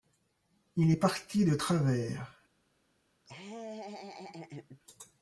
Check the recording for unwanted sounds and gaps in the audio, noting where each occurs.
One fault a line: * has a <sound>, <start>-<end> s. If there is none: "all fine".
* has a laugh, 3.2-4.8 s